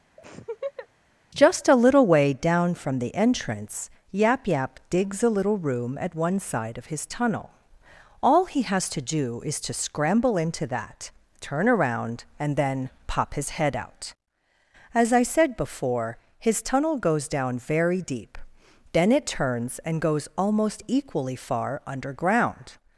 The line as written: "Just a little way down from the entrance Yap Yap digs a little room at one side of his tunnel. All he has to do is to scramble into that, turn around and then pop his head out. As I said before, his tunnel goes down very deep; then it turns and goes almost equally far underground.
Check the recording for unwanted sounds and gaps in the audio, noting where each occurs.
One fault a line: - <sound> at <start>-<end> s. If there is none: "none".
- laugh at 0.2-0.9 s